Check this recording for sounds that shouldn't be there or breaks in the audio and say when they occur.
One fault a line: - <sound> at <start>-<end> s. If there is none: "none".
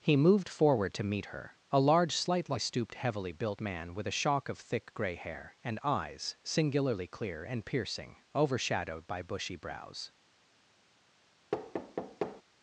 - thud at 11.5-12.4 s